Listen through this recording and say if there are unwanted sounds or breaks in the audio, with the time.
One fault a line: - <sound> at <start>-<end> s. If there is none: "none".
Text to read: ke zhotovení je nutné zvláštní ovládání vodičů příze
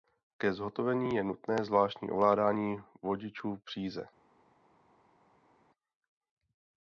none